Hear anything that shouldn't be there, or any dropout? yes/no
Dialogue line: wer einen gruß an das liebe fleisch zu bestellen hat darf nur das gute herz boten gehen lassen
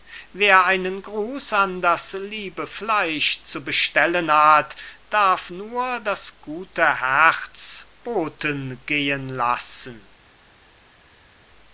no